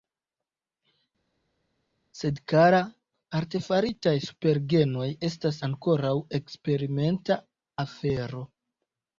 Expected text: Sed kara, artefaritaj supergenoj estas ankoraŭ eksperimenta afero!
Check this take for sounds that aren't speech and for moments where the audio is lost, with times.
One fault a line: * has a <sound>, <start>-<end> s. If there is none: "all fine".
all fine